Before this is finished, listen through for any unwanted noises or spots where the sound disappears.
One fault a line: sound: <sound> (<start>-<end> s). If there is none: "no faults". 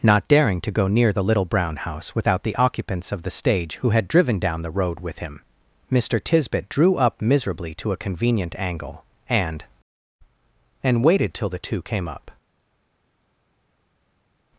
no faults